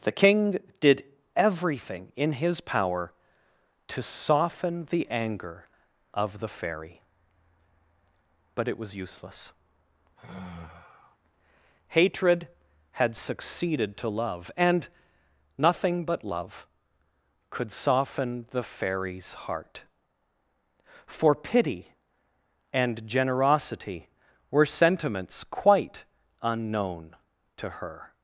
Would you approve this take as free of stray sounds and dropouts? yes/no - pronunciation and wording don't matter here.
no